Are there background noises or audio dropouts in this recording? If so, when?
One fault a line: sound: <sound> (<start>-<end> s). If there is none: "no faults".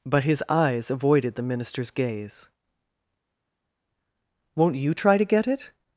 no faults